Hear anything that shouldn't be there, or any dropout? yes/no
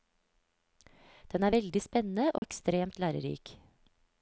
yes